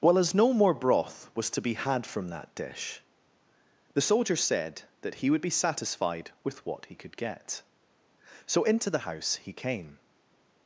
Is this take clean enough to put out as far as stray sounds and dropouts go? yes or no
yes